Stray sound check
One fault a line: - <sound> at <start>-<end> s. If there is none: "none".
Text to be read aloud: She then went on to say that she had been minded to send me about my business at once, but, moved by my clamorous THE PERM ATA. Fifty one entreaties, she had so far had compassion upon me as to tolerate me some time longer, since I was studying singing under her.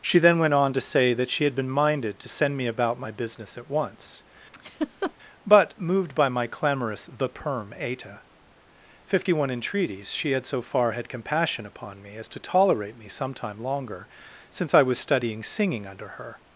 - laugh at 4.5-5.1 s